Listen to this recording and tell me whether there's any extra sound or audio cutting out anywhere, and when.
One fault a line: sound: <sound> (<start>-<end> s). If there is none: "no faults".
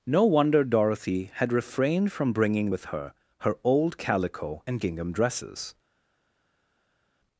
no faults